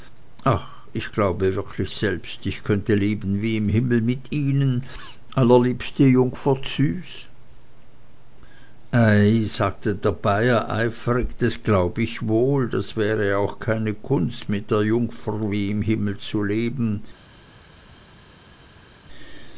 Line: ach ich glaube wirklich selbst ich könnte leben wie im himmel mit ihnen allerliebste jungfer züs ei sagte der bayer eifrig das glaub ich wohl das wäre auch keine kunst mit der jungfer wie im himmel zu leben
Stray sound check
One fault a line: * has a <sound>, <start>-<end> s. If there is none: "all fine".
all fine